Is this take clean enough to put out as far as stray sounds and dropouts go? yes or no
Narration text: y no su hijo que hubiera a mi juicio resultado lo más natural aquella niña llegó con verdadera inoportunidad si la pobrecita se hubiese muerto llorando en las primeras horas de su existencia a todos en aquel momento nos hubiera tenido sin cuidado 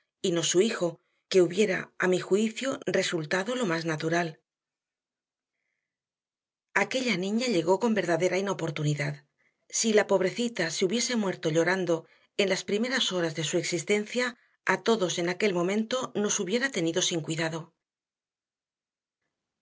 yes